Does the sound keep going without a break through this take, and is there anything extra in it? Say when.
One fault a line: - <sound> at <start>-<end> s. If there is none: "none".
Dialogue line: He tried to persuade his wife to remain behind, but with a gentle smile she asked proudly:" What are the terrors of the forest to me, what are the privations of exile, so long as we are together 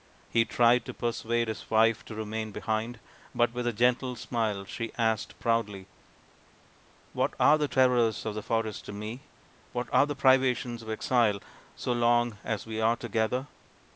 none